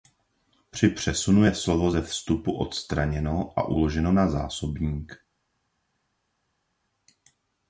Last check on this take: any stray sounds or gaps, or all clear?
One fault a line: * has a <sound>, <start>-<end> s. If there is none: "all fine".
all fine